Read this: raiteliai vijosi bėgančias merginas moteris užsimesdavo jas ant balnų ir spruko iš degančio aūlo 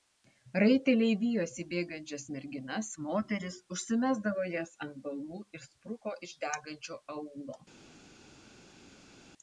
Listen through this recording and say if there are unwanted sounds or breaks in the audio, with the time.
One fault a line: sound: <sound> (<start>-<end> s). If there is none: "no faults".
no faults